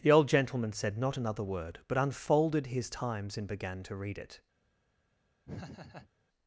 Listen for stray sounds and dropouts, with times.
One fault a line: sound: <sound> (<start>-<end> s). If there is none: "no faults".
sound: laugh (5.4-6.1 s)